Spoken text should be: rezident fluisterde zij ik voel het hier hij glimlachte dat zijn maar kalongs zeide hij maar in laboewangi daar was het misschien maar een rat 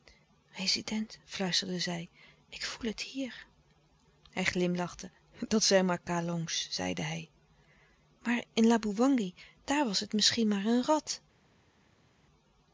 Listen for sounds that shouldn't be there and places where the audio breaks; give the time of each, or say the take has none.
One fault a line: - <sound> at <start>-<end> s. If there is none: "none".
none